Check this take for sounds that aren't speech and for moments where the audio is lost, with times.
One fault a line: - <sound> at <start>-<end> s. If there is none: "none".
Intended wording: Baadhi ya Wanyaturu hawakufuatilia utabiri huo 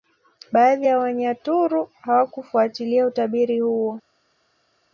none